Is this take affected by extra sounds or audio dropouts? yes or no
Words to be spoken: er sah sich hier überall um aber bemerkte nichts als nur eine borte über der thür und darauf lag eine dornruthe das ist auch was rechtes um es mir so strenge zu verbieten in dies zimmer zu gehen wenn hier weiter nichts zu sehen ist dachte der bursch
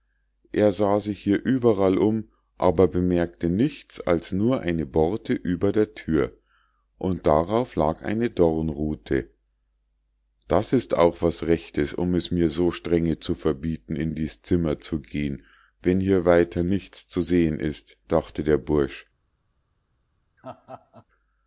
yes